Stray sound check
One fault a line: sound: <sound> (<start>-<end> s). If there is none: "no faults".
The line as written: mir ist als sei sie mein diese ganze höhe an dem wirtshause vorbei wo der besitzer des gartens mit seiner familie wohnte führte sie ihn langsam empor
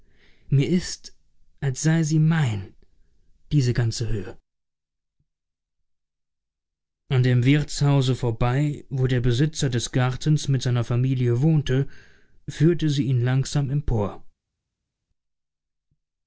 no faults